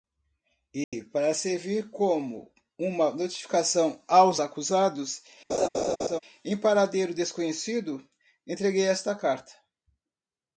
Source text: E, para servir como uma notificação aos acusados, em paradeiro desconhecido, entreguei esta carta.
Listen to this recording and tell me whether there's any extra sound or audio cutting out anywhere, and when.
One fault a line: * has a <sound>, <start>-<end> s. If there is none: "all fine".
* has a dropout, 0.8-0.9 s
* has a laugh, 5.5-6.2 s